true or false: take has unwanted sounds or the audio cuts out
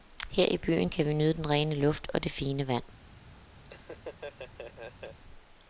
true